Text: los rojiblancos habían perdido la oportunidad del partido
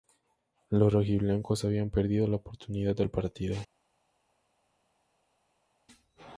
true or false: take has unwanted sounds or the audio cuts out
false